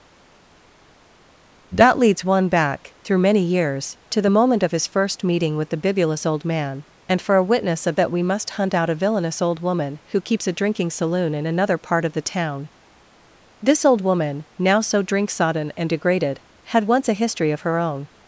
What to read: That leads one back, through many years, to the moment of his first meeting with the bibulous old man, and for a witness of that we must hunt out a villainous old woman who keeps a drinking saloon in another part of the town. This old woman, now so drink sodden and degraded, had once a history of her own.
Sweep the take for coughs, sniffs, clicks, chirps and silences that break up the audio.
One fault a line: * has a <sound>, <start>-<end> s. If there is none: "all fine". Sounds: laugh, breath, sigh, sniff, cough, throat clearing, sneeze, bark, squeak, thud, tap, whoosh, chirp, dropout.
all fine